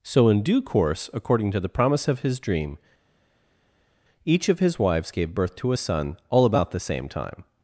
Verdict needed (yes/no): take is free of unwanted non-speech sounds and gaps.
yes